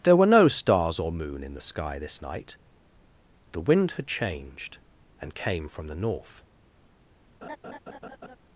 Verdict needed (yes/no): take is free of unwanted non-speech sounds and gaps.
no